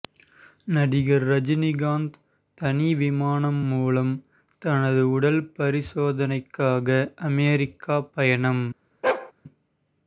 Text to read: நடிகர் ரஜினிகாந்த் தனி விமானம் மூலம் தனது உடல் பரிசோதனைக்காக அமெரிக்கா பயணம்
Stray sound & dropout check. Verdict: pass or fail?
fail